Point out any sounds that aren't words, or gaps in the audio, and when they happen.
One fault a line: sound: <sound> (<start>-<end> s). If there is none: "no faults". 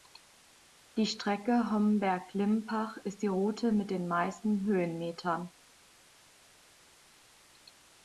no faults